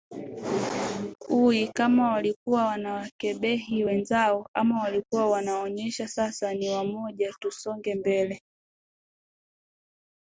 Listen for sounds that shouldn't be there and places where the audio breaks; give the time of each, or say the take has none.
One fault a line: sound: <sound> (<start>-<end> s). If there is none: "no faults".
no faults